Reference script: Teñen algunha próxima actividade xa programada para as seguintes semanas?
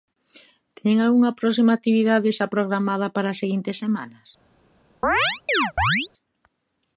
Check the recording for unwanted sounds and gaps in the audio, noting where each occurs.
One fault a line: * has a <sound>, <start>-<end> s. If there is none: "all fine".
* has a chirp, 5.0-6.1 s